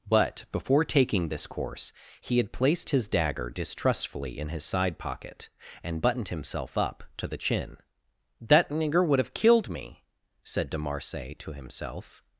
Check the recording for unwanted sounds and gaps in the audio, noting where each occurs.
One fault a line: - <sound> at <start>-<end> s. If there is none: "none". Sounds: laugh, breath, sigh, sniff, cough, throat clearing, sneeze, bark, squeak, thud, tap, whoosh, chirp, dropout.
none